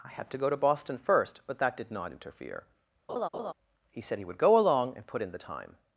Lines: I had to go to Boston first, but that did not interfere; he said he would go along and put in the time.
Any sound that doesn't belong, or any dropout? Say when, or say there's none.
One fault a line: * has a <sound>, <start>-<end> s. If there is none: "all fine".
* has a laugh, 3.1-3.5 s